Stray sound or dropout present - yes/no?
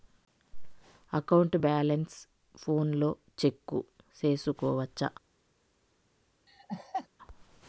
yes